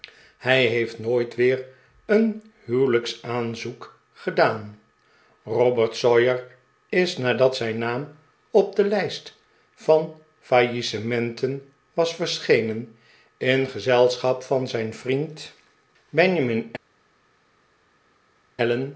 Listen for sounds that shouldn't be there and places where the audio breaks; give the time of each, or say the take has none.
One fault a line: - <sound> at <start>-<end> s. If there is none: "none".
none